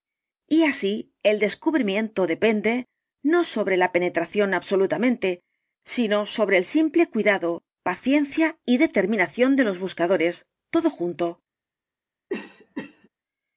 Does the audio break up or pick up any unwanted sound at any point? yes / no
yes